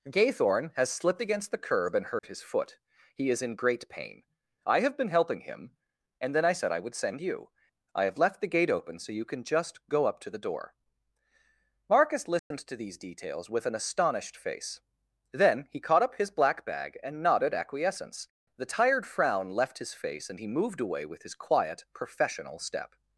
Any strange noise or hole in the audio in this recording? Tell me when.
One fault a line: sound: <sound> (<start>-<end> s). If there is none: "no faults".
sound: dropout (2.2-2.2 s)
sound: dropout (12.4-12.5 s)